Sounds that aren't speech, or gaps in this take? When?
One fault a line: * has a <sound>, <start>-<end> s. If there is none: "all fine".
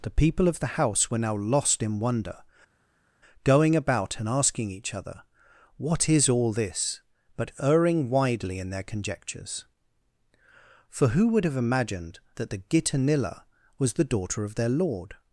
all fine